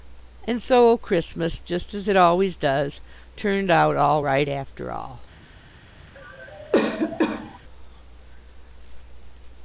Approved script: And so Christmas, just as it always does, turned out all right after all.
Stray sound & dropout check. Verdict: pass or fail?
fail